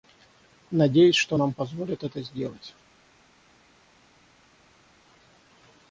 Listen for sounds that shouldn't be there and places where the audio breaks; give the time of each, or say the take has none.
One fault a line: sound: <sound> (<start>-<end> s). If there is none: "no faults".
no faults